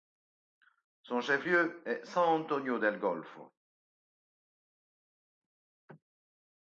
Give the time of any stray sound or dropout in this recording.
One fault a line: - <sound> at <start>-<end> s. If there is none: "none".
none